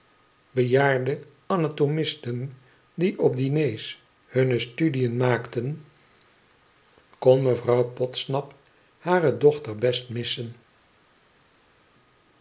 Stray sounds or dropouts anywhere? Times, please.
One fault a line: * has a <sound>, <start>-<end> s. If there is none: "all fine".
all fine